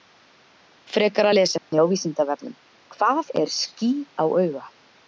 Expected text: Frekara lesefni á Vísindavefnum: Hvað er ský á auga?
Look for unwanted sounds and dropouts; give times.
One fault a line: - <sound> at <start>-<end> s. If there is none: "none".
- dropout at 1.6-1.7 s